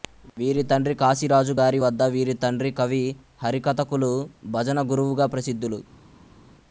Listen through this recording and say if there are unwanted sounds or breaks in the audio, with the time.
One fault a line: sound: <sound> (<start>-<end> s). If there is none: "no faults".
no faults